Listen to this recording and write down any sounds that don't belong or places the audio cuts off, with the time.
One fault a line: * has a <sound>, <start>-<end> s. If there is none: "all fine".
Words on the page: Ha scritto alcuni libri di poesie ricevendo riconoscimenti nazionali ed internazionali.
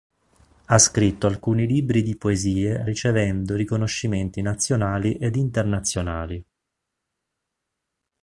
all fine